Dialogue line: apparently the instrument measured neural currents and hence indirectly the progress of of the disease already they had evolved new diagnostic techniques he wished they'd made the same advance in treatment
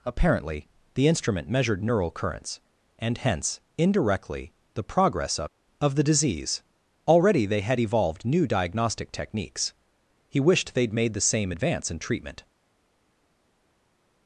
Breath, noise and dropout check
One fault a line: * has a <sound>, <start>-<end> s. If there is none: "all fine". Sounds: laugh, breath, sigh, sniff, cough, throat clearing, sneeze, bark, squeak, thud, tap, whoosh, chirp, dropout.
all fine